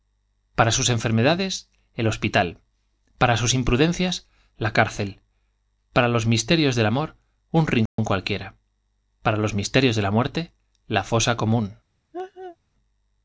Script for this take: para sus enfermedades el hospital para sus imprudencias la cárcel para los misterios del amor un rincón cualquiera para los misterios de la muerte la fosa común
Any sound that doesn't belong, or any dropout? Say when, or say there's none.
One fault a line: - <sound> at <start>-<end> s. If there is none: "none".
- dropout at 7.9-8.0 s
- laugh at 12.1-12.6 s